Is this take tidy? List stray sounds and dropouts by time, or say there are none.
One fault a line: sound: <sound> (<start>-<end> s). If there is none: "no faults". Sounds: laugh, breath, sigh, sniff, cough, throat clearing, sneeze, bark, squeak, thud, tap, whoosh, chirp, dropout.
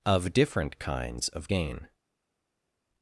no faults